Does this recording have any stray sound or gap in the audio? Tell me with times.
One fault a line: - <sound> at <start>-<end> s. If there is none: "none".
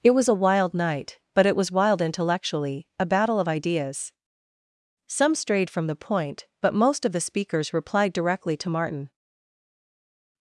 none